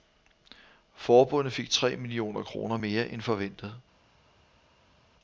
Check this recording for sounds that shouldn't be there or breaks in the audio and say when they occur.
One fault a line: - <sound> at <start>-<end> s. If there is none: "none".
none